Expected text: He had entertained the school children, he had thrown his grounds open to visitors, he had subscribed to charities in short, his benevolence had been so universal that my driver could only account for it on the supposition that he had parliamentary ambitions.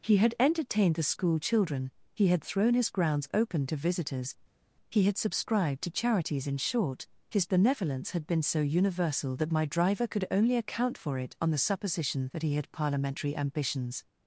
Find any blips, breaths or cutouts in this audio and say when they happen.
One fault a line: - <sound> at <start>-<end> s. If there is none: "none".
none